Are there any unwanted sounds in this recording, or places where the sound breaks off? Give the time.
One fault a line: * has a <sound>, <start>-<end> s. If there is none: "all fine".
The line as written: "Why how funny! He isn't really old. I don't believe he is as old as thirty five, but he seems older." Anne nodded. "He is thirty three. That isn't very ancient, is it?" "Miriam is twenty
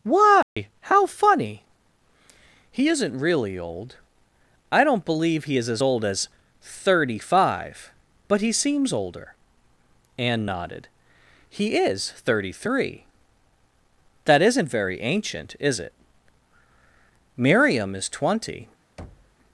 * has a dropout, 0.4-0.6 s
* has a thud, 19.0-19.4 s